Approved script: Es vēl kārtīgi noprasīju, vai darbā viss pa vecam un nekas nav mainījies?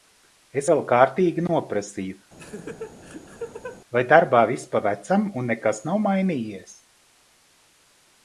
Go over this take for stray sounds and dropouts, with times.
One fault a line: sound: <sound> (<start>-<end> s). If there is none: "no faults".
sound: laugh (2.4-3.8 s)